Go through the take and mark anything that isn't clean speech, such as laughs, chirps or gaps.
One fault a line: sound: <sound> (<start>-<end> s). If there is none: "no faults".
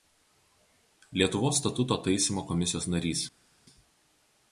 no faults